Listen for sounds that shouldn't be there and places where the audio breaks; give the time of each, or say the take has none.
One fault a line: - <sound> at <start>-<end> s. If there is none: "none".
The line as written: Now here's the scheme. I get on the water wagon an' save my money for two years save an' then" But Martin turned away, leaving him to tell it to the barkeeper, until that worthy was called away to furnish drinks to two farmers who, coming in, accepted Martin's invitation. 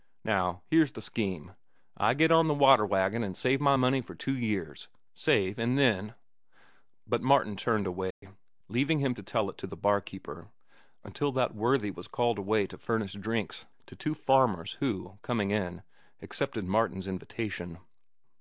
- dropout at 8.1-8.2 s